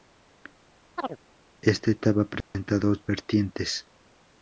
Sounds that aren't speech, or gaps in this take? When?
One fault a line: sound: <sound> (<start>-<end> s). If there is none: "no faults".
sound: chirp (1.0-1.2 s)
sound: dropout (2.4-2.5 s)